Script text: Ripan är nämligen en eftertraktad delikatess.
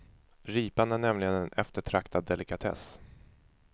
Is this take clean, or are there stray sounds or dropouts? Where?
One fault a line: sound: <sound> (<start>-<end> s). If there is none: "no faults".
no faults